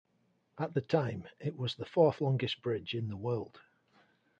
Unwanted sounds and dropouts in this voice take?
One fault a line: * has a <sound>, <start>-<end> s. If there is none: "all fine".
all fine